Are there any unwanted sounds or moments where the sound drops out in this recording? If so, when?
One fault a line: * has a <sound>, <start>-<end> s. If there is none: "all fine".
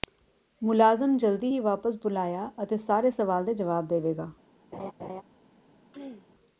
* has a laugh, 4.7-5.2 s
* has a throat clearing, 5.9-6.3 s